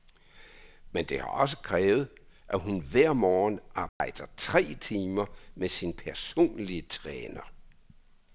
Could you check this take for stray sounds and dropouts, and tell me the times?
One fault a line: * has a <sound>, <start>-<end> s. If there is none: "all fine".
* has a dropout, 3.9-4.0 s